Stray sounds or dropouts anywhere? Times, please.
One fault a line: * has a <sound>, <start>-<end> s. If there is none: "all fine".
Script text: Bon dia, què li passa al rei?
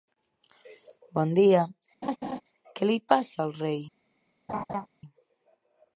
* has a laugh, 2.0-2.4 s
* has a laugh, 4.5-4.9 s